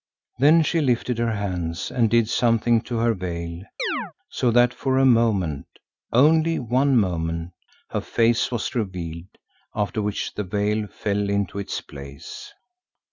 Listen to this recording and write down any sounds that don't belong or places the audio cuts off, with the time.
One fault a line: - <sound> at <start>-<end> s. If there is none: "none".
- chirp at 3.8-4.1 s